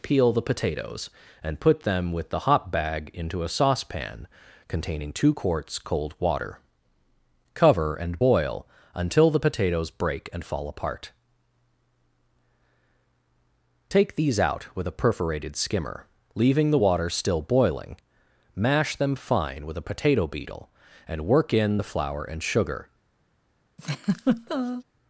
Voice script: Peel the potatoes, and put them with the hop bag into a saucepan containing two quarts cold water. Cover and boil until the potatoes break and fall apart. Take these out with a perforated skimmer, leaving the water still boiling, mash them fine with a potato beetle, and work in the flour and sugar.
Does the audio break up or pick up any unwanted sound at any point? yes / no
yes